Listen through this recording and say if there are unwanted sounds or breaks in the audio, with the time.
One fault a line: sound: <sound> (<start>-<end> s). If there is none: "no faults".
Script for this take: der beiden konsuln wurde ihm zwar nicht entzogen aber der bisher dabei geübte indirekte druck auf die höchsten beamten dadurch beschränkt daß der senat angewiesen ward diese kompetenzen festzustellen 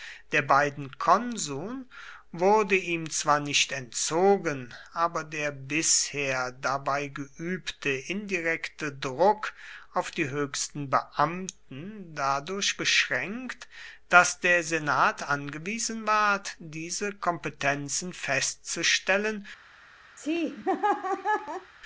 sound: laugh (20.2-21.7 s)